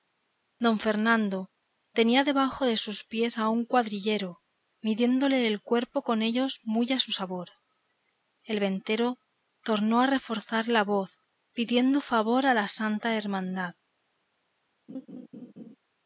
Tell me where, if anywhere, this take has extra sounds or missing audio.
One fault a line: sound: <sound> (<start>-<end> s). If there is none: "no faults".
sound: laugh (14.9-15.8 s)